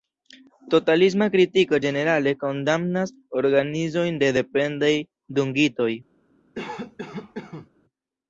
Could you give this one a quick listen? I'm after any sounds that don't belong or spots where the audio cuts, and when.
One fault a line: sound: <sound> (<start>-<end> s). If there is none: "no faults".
sound: cough (6.5-7.7 s)